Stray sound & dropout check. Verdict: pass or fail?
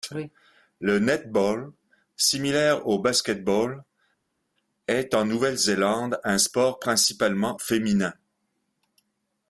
pass